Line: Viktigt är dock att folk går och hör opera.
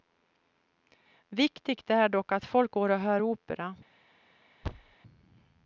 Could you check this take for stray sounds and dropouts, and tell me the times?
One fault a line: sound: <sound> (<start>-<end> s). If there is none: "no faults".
sound: thud (4.6-5.0 s)